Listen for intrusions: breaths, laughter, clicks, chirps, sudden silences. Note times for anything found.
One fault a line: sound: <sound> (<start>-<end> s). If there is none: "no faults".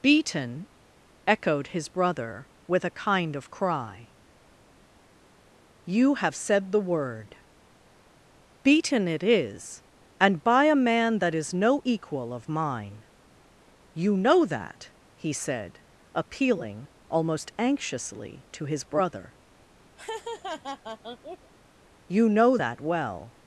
sound: laugh (20.0-21.5 s)